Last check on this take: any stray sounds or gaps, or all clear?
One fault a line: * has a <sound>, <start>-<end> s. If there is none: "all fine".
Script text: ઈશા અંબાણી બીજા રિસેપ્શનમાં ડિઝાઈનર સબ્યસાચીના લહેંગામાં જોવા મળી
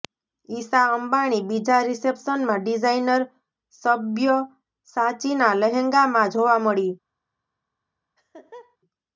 * has a laugh, 8.2-8.8 s